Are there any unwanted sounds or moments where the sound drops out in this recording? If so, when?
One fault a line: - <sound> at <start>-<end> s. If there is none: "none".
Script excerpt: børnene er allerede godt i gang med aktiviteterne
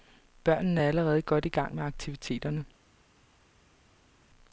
none